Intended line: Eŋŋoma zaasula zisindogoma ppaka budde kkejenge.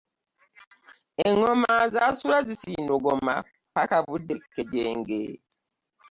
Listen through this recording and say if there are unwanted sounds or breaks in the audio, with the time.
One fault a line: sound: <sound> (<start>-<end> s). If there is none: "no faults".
no faults